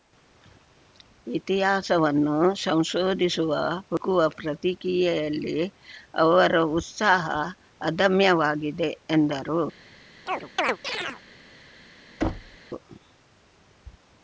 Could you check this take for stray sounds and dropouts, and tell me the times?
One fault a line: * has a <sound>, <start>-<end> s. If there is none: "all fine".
* has a chirp, 10.3-11.2 s
* has a thud, 12.2-12.6 s